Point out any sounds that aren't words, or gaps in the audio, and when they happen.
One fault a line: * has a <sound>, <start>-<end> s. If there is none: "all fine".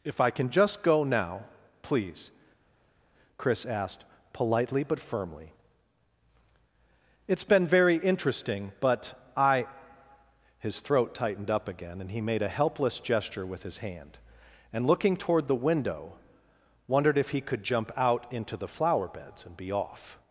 all fine